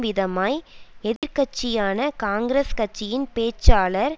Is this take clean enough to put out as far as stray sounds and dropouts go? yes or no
no